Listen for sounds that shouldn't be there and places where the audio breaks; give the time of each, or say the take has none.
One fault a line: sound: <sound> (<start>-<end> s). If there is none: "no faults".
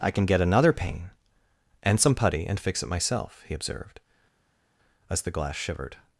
no faults